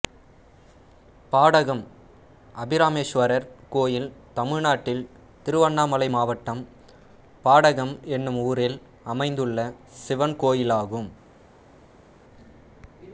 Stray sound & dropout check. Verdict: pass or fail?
pass